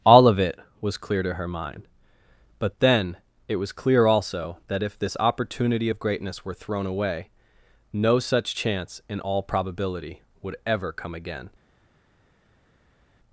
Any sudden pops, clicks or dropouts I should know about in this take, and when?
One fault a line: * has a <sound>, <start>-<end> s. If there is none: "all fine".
all fine